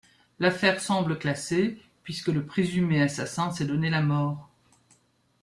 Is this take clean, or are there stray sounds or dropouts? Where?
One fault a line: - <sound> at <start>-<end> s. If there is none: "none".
none